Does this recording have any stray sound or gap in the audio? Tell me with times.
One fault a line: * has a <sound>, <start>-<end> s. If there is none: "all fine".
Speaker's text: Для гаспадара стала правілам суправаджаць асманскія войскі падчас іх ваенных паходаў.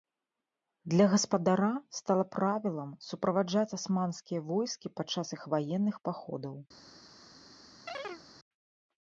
* has a chirp, 7.9-8.2 s